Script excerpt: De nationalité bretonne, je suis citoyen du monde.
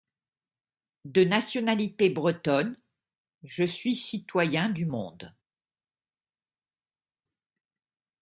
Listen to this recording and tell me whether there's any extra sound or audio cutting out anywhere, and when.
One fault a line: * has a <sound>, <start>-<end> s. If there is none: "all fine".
all fine